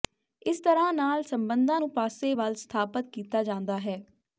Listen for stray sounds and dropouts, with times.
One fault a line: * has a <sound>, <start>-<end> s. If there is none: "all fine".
all fine